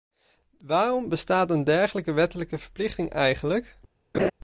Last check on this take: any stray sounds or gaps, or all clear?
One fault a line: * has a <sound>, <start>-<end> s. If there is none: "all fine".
* has a laugh, 4.1-4.3 s